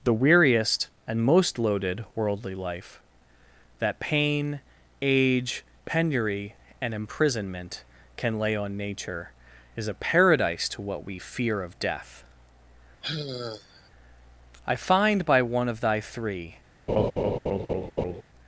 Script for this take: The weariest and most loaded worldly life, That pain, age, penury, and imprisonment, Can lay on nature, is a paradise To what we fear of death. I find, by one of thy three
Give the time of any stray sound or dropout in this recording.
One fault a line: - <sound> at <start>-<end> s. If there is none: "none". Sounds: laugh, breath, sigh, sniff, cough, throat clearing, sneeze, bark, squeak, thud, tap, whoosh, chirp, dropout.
- sigh at 13.0-13.9 s
- laugh at 16.9-18.2 s